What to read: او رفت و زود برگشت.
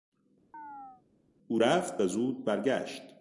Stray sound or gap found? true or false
true